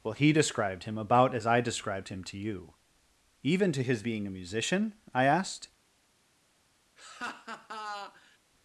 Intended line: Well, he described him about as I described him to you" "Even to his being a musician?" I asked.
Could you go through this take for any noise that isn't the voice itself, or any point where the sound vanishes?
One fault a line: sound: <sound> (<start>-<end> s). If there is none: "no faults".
sound: laugh (7.0-8.4 s)